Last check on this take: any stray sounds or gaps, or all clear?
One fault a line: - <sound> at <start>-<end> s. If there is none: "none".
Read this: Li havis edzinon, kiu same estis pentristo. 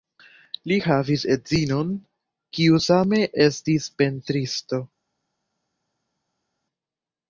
none